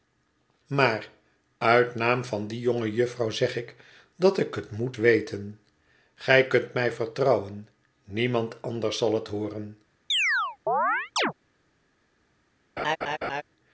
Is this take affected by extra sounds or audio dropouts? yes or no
yes